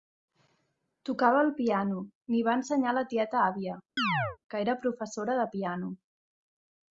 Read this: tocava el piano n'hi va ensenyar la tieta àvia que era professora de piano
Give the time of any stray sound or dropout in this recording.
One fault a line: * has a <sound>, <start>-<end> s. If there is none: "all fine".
* has a chirp, 4.0-4.4 s